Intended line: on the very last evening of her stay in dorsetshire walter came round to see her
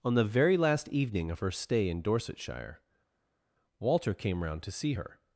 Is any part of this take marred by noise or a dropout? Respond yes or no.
no